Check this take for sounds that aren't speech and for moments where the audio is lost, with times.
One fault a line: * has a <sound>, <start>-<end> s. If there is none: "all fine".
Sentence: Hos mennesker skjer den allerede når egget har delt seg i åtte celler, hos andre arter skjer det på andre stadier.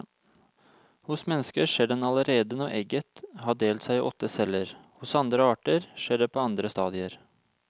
all fine